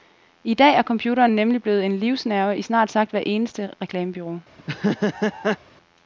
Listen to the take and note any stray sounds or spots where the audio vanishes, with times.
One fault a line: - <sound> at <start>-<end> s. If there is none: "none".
- laugh at 4.6-5.6 s